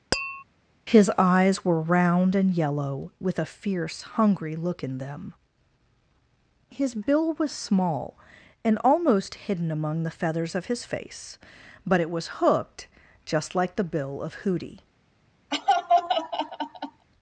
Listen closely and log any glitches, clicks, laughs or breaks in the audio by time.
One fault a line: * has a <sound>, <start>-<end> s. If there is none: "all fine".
* has a tap, 0.1-0.4 s
* has a laugh, 15.5-17.1 s